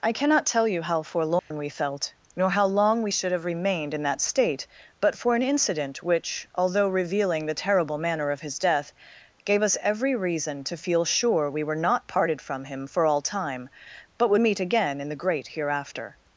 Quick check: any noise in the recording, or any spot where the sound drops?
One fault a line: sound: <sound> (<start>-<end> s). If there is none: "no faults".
sound: dropout (1.4-1.5 s)